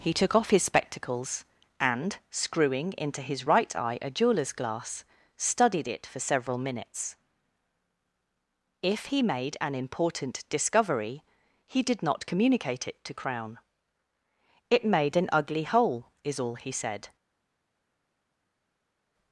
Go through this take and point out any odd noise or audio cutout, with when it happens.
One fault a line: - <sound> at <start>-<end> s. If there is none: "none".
none